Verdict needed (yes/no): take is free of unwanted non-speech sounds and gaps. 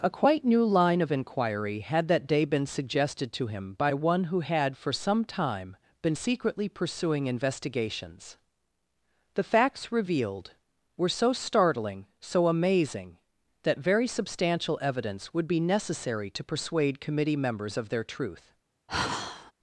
no